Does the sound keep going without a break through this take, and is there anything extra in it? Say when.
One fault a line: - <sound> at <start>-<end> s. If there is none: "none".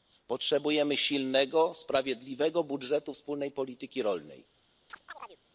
- chirp at 4.9-5.4 s